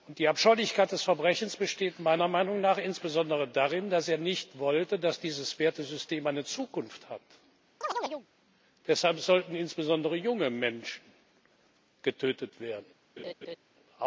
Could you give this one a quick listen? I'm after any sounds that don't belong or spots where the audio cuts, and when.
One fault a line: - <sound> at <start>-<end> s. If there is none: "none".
- chirp at 7.8-8.3 s
- laugh at 13.2-13.6 s